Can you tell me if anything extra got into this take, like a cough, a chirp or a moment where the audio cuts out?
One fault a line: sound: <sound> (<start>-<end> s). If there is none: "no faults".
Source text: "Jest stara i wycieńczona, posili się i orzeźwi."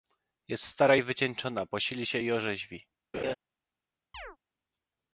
sound: laugh (3.1-3.3 s)
sound: chirp (4.1-4.4 s)